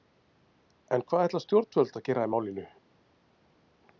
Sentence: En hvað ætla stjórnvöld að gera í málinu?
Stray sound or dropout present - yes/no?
no